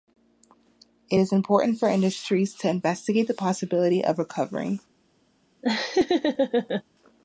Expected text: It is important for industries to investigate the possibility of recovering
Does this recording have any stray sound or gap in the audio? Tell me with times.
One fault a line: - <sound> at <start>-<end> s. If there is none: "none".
- laugh at 5.6-6.8 s